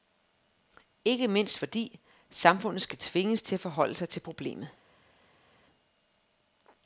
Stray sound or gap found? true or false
false